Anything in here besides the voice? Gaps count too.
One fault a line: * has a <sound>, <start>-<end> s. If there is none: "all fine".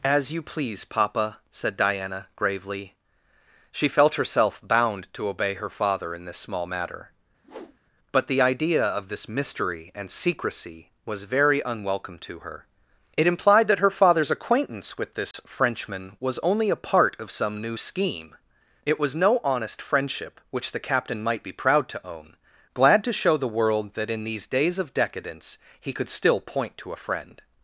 * has a whoosh, 7.4-7.8 s
* has a dropout, 15.3-15.3 s